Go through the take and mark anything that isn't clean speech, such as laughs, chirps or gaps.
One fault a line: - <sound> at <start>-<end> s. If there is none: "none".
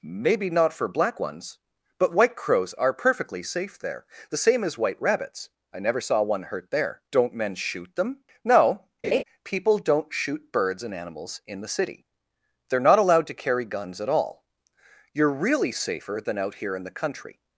- laugh at 9.0-9.2 s